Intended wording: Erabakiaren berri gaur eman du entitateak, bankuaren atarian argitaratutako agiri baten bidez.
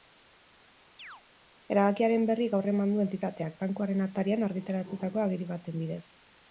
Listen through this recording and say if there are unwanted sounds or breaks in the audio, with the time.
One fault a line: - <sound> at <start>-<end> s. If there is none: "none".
- chirp at 1.0-1.2 s